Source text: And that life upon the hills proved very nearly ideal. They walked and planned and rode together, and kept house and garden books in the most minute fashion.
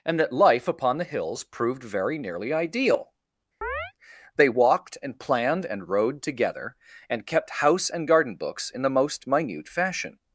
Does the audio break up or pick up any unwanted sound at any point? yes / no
yes